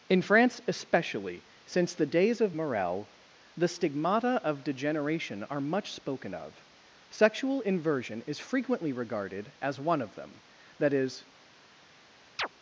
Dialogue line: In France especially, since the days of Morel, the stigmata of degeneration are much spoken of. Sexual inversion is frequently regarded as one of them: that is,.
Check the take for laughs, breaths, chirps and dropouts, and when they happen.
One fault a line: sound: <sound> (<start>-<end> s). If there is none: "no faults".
sound: chirp (12.4-12.5 s)